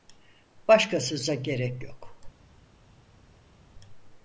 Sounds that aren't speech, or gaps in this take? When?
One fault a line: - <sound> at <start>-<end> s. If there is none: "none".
none